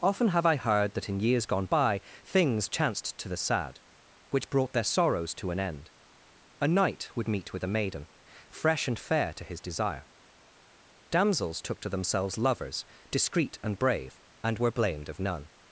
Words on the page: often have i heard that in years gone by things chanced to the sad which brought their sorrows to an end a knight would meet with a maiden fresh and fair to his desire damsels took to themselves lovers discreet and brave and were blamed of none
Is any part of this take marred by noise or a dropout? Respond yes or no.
no